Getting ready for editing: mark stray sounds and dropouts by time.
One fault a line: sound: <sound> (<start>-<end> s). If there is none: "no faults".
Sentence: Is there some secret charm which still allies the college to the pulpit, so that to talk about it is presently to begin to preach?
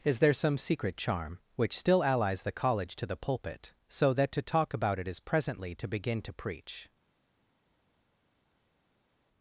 no faults